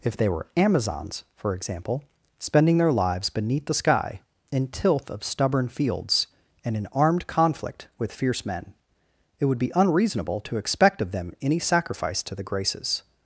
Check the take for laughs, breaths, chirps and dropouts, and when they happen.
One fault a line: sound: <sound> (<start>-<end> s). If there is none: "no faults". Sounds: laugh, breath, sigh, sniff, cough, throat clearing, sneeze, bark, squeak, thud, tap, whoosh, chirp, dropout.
no faults